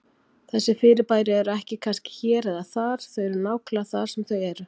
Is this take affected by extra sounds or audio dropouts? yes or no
no